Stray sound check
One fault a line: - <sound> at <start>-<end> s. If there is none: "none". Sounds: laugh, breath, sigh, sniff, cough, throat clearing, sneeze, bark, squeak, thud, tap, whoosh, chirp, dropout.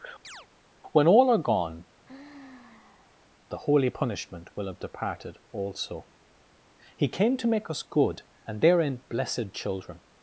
- chirp at 0.2-0.5 s
- sigh at 2.0-3.3 s